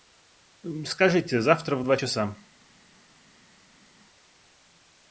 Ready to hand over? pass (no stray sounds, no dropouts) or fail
pass